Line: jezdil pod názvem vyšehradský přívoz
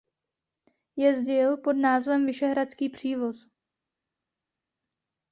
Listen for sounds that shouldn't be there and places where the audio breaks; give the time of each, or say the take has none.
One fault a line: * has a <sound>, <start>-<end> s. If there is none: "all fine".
all fine